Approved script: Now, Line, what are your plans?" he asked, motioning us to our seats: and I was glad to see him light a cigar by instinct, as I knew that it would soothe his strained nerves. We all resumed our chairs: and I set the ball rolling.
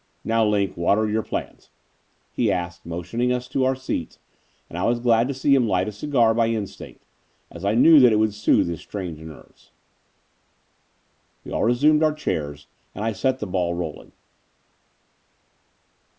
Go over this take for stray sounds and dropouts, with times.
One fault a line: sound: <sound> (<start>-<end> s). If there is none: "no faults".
no faults